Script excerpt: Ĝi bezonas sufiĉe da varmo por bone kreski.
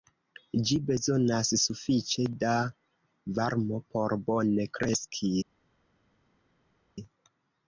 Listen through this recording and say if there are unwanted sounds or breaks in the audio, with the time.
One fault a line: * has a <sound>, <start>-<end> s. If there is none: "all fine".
all fine